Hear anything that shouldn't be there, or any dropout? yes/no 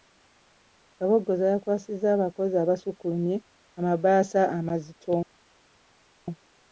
no